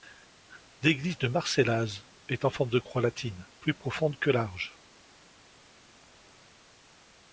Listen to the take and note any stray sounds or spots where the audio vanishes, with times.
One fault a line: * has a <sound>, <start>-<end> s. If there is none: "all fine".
all fine